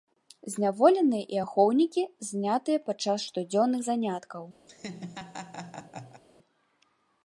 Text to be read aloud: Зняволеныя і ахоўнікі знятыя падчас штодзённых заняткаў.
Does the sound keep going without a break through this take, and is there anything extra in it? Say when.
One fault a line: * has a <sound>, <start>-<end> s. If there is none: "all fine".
* has a laugh, 4.7-6.2 s